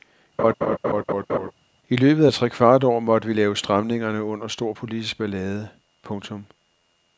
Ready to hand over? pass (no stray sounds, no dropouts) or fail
fail